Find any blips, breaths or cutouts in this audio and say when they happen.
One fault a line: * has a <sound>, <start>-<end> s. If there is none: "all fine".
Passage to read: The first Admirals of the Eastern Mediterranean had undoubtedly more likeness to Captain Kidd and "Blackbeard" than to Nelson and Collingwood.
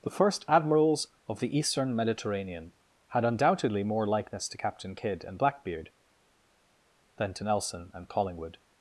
all fine